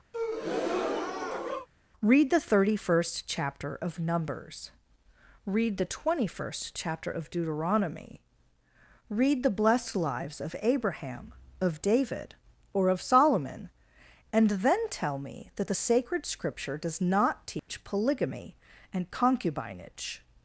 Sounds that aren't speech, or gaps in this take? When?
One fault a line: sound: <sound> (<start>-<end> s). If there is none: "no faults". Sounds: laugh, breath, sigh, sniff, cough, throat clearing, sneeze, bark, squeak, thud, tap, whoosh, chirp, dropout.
sound: breath (0.1-1.7 s)
sound: dropout (17.6-17.7 s)